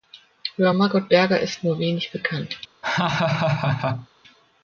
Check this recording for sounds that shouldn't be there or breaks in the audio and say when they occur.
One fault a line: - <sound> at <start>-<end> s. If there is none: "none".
- laugh at 2.8-4.1 s